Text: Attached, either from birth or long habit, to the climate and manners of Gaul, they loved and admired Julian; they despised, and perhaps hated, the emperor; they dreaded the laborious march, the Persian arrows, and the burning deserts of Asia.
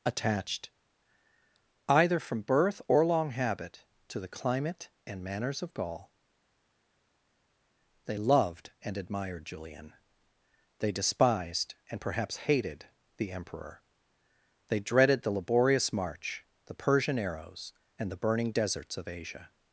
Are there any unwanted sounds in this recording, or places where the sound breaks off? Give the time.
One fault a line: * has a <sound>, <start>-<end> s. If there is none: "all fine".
all fine